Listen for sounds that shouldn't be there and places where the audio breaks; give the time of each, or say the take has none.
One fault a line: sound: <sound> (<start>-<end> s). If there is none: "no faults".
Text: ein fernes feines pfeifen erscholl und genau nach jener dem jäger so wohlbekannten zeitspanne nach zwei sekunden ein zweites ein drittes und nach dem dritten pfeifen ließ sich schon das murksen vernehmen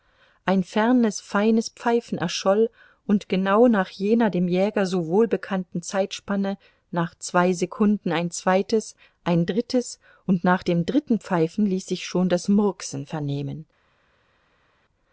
no faults